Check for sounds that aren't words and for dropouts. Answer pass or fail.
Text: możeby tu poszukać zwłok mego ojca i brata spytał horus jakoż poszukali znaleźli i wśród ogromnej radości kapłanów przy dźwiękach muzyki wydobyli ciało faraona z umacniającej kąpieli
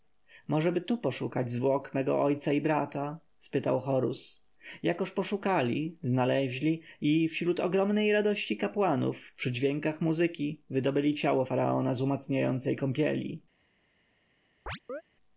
fail